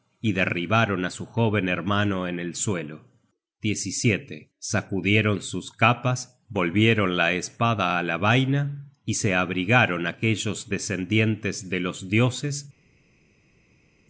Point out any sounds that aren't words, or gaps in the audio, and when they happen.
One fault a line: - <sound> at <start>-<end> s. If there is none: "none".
none